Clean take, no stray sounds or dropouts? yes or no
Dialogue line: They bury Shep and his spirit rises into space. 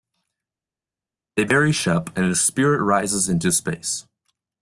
yes